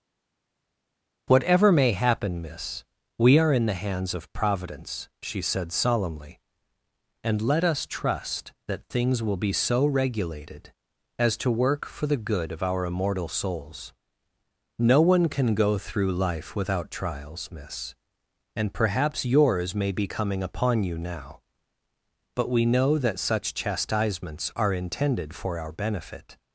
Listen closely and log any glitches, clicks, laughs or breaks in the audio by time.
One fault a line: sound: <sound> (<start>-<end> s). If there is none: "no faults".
no faults